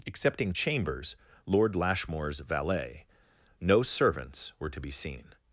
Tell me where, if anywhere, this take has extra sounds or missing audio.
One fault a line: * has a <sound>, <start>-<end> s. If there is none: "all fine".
all fine